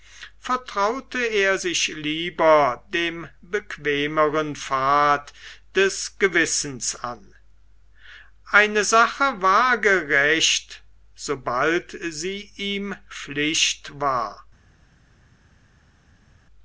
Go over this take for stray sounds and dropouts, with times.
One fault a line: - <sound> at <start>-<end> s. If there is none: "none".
none